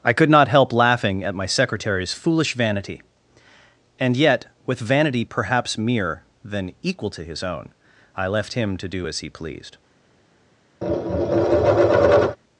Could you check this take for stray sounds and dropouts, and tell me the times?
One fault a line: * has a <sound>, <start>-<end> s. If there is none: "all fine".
* has a tap, 10.8-12.4 s